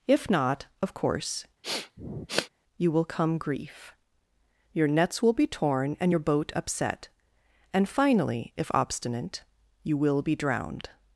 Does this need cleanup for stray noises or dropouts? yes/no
yes